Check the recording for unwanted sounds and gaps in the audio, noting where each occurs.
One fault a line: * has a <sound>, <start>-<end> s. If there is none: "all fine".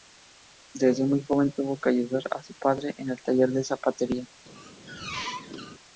* has a squeak, 4.5-5.8 s